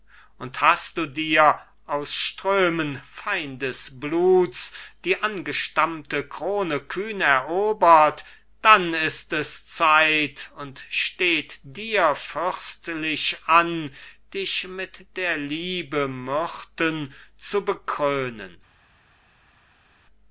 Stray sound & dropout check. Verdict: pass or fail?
pass